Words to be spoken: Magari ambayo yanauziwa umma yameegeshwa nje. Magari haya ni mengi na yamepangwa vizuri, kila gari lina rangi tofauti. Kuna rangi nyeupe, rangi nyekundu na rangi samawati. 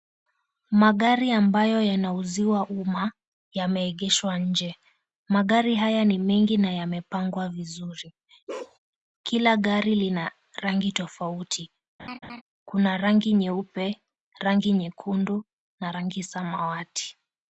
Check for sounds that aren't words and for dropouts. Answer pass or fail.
fail